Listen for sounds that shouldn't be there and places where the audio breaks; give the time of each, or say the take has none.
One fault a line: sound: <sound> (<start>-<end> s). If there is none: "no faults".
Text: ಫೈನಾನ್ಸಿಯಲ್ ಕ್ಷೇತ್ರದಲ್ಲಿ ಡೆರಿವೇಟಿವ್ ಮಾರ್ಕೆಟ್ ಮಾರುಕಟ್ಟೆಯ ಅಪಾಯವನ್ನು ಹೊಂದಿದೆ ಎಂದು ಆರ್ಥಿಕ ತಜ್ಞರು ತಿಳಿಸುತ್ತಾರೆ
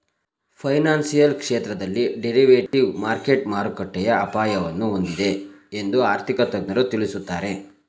sound: dropout (2.7-2.7 s)